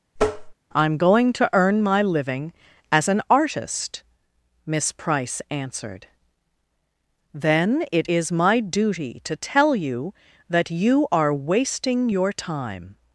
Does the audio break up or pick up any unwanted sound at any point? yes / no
yes